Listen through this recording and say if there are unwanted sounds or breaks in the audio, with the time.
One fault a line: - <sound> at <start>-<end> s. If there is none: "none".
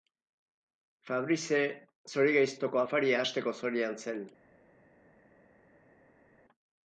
none